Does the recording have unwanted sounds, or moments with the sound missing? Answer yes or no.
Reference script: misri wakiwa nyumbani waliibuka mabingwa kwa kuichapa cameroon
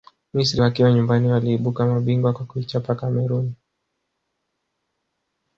no